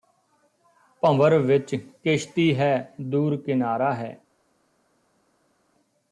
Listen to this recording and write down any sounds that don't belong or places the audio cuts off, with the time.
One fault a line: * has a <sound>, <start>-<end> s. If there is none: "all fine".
all fine